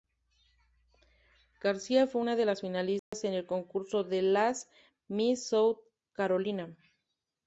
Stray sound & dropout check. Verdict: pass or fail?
fail